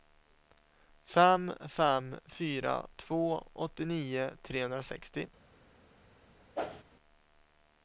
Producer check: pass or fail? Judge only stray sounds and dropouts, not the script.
fail